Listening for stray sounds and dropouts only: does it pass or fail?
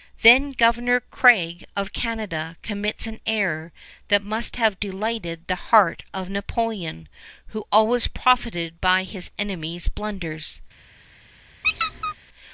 fail